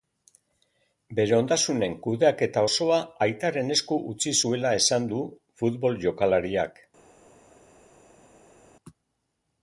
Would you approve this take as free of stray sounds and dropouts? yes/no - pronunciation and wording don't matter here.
yes